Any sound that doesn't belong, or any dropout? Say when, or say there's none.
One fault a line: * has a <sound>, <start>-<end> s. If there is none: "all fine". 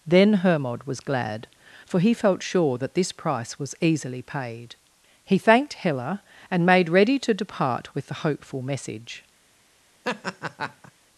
* has a laugh, 10.0-10.9 s